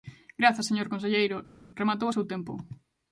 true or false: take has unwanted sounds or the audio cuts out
false